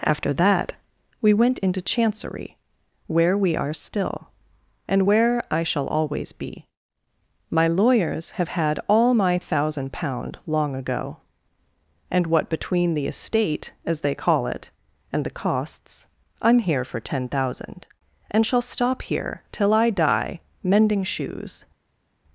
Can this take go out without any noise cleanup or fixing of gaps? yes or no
yes